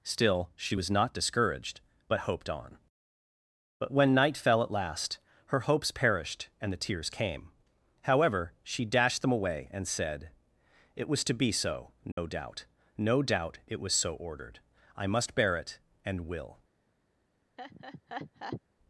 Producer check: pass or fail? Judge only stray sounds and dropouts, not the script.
fail